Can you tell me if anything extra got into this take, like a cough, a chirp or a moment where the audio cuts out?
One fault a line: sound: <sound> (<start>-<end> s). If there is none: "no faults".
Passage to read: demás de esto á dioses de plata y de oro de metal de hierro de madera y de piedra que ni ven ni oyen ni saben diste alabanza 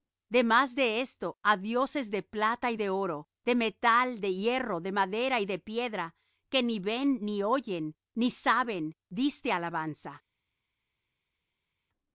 no faults